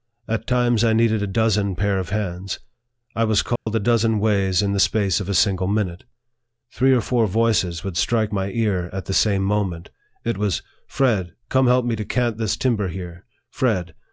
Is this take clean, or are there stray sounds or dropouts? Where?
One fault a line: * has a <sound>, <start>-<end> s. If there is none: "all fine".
* has a dropout, 3.6-3.7 s